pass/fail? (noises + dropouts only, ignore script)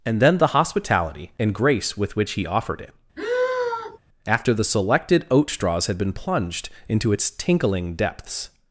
fail